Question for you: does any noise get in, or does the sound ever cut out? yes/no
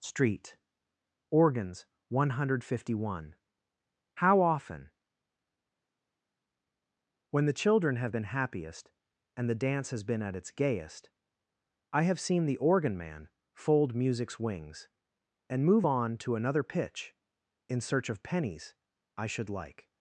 no